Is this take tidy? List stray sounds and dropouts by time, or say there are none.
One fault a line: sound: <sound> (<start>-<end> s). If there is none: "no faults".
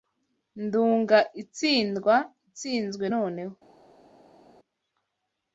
no faults